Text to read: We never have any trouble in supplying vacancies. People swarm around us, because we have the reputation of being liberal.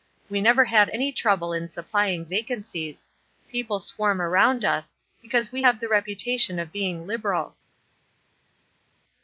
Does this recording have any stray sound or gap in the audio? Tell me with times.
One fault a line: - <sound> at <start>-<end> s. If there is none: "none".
none